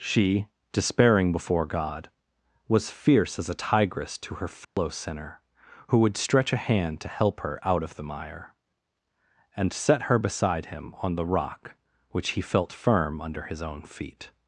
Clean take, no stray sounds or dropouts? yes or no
no